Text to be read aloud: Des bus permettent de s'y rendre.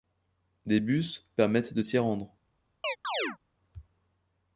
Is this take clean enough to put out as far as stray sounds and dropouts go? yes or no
no